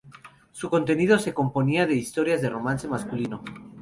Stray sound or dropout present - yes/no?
no